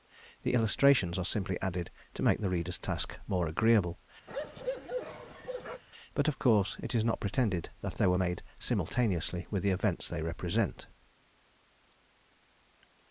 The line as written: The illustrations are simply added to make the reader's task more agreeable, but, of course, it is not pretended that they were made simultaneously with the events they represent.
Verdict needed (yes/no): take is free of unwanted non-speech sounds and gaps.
no